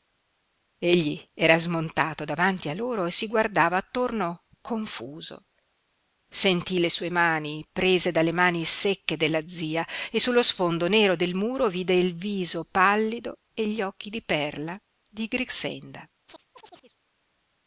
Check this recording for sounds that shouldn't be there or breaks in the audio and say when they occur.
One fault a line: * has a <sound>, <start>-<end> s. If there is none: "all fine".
* has a chirp, 16.3-17.0 s